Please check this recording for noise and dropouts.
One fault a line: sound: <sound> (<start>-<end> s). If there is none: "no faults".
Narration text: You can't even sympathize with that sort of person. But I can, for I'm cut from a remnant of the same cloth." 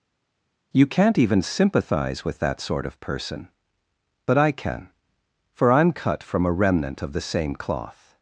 no faults